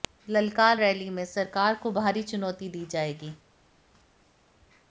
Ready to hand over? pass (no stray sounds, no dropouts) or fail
pass